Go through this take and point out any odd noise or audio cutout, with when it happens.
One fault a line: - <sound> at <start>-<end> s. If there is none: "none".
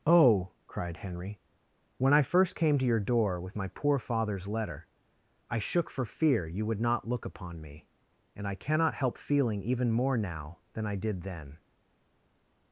none